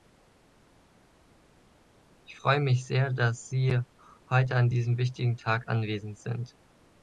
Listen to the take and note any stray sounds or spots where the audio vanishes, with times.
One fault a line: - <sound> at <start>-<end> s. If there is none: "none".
none